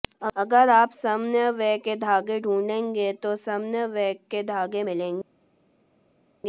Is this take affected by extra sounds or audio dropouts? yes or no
no